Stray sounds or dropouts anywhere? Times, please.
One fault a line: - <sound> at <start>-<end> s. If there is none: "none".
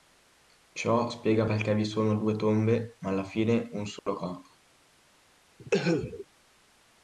- dropout at 4.0-4.1 s
- cough at 5.6-6.3 s